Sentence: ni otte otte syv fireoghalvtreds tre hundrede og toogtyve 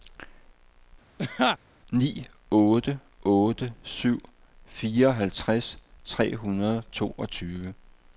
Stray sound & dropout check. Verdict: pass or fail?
fail